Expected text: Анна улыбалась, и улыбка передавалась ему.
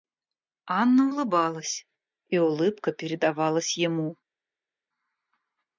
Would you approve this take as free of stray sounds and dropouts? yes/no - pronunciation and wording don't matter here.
yes